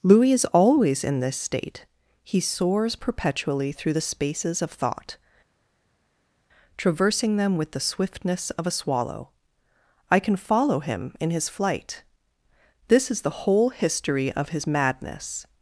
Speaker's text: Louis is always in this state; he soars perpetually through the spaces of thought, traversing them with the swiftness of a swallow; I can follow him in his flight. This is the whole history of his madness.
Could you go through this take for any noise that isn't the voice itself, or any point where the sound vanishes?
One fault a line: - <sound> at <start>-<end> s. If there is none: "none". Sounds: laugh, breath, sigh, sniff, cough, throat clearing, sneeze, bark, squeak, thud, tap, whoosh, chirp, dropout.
none